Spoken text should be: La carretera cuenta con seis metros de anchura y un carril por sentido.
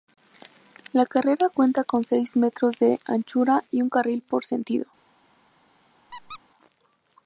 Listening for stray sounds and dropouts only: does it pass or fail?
fail